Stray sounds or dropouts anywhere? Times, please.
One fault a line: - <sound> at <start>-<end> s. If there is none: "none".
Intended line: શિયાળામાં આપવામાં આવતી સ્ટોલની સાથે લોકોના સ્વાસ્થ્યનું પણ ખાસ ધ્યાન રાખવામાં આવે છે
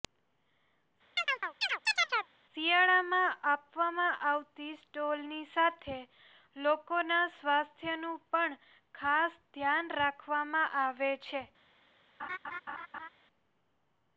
- chirp at 1.2-2.3 s
- laugh at 12.2-13.1 s